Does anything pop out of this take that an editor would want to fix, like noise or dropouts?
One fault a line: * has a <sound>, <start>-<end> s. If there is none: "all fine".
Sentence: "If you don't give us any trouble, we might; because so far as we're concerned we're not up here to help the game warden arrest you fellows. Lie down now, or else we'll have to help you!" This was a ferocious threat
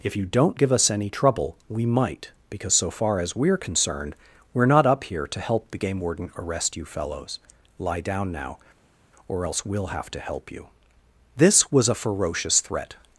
all fine